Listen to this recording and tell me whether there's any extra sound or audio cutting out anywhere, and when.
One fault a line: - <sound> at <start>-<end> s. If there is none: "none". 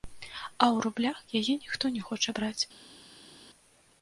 none